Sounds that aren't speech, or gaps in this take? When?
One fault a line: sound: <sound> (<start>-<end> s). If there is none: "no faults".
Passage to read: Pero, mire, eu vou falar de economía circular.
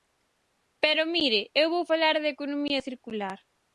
no faults